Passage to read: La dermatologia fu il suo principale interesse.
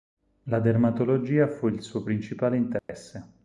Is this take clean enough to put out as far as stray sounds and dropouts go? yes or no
no